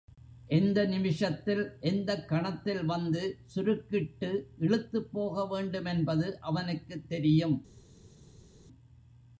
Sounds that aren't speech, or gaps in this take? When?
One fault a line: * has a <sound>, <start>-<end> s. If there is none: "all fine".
all fine